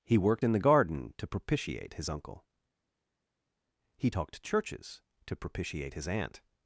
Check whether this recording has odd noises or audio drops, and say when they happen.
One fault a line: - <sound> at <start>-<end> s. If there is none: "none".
none